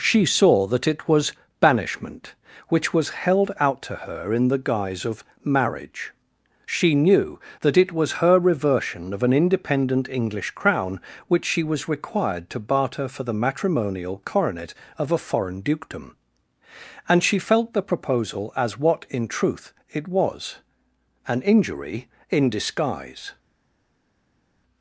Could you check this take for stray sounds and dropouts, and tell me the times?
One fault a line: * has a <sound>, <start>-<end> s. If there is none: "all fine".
all fine